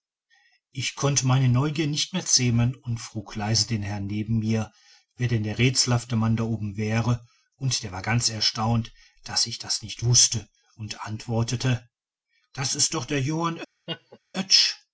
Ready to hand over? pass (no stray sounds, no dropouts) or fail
fail